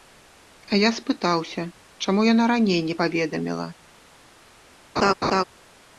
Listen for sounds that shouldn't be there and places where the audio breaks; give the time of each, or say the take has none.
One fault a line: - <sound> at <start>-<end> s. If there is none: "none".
- laugh at 5.0-5.4 s